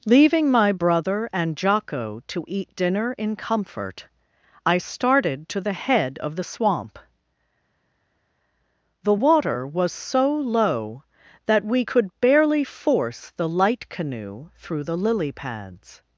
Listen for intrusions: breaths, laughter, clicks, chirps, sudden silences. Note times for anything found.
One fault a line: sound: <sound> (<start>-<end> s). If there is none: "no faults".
no faults